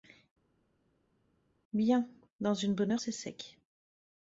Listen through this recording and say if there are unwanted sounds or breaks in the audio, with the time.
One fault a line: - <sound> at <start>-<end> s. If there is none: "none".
none